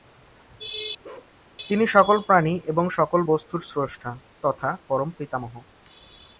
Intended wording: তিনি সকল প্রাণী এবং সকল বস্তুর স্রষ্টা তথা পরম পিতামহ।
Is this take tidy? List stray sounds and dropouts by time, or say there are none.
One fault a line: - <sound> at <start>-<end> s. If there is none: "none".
- bark at 1.0-1.3 s